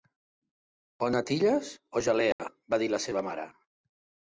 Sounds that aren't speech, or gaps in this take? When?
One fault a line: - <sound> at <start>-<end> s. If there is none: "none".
- dropout at 2.3-2.4 s